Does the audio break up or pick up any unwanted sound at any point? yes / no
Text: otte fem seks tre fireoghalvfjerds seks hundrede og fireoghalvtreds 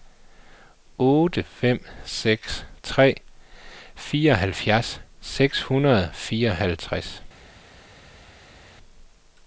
no